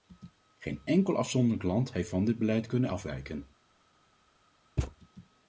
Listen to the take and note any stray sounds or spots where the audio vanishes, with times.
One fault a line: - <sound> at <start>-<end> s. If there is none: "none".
- thud at 4.8-5.0 s